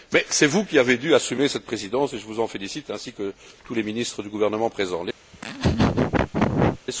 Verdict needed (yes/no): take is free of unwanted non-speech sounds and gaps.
no